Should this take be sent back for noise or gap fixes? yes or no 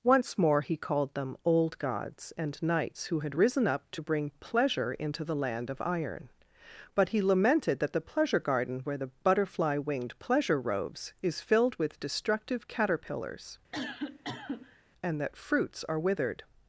yes